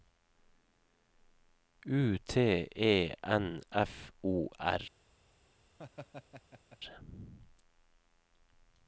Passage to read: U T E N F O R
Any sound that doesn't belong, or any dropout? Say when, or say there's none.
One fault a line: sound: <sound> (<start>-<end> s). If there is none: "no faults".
sound: laugh (5.8-6.8 s)